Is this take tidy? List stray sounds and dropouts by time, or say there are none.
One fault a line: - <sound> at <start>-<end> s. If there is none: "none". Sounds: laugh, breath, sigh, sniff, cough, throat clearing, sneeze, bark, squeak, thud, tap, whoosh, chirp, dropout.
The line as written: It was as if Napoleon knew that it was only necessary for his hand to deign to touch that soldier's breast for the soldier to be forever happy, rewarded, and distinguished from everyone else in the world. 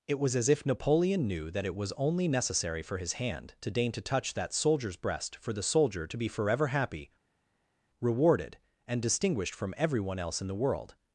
none